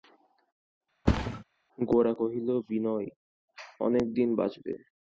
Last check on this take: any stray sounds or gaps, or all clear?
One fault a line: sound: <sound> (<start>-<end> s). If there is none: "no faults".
sound: thud (1.1-1.4 s)